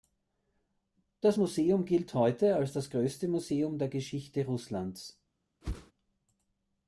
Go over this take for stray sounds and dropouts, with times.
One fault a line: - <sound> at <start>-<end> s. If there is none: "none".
- whoosh at 5.6-5.9 s